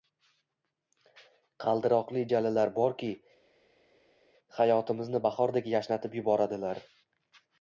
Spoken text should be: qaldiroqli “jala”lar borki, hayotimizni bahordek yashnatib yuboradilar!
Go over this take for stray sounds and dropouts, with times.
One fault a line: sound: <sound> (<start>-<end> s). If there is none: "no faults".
no faults